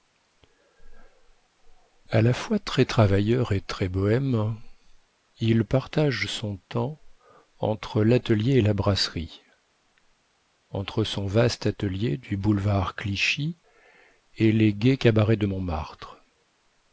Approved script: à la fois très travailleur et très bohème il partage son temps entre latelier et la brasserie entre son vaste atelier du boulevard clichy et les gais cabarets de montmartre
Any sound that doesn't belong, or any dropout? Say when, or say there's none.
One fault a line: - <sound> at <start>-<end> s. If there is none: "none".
none